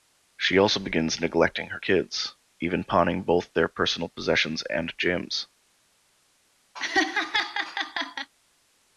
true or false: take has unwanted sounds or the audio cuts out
true